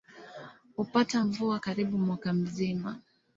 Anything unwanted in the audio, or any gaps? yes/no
no